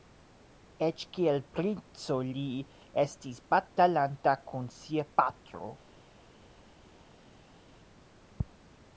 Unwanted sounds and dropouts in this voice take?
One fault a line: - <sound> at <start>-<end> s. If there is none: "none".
none